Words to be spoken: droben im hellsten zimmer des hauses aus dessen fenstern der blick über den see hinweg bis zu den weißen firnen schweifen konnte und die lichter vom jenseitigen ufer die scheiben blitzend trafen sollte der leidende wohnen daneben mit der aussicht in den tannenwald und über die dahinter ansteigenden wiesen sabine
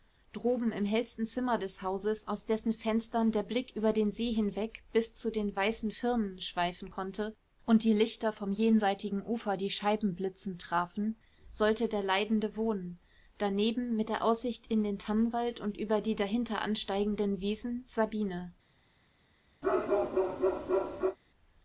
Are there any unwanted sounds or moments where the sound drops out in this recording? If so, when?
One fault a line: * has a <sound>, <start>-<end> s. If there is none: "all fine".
* has a bark, 19.6-21.2 s